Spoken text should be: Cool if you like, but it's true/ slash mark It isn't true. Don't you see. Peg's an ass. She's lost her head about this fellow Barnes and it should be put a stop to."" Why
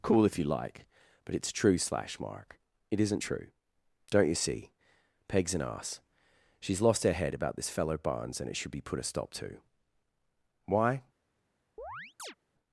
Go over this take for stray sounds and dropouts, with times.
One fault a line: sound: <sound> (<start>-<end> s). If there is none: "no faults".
sound: chirp (11.8-12.4 s)